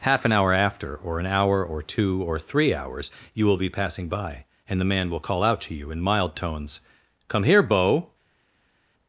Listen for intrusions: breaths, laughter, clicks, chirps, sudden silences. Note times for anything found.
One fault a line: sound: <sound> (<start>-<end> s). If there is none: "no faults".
no faults